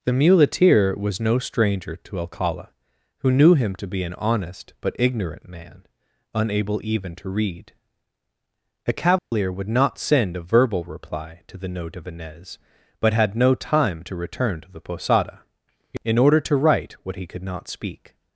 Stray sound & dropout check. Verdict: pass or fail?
fail